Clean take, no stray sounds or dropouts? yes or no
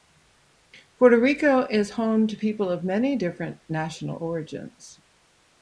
yes